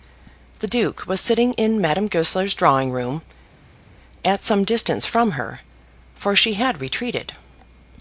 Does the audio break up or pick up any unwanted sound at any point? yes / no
no